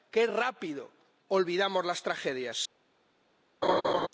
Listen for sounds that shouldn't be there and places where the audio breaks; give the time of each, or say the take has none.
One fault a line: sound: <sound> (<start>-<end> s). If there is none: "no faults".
sound: laugh (3.6-4.1 s)